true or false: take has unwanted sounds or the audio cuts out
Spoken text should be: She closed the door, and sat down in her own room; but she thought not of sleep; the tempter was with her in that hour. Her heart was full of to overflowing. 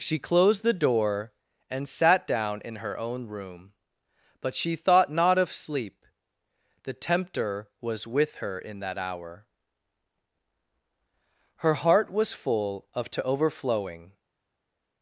false